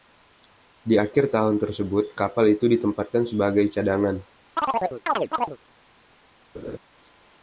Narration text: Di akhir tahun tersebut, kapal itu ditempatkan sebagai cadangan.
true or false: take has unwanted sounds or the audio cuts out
true